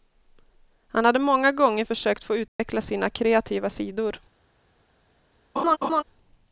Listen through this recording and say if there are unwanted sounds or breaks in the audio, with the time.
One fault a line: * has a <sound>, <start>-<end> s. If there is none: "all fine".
* has a dropout, 2.5-2.6 s
* has a laugh, 5.6-6.0 s